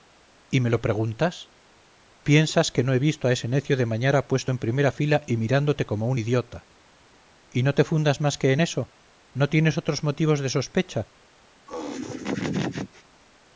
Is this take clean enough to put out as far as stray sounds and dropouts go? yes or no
no